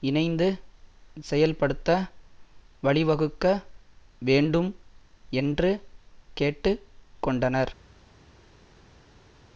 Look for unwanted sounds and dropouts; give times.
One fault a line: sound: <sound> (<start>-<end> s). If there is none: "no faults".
no faults